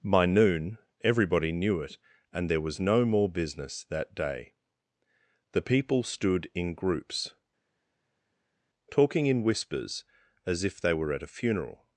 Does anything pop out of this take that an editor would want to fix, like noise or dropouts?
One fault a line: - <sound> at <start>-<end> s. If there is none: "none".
none